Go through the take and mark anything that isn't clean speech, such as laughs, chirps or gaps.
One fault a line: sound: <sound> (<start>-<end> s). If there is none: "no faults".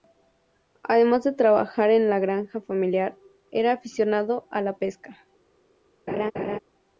sound: laugh (6.1-6.6 s)